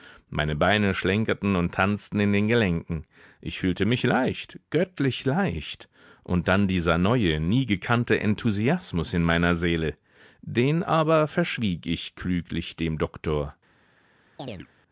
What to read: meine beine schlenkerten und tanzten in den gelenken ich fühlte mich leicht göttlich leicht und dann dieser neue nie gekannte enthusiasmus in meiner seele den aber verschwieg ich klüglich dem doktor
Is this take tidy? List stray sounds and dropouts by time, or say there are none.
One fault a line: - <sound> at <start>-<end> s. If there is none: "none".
- chirp at 14.4-14.7 s